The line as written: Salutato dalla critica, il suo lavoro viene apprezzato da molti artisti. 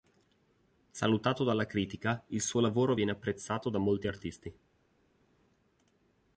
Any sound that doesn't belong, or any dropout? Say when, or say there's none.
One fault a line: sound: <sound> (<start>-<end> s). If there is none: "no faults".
no faults